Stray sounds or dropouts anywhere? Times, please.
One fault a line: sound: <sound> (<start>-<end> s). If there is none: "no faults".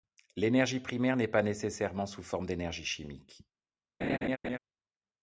sound: laugh (4.0-4.6 s)